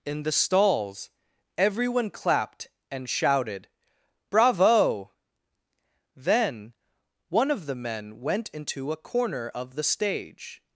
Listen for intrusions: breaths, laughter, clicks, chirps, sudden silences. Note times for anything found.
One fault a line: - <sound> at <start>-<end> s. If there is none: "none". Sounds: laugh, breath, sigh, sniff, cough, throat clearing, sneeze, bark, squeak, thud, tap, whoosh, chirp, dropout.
none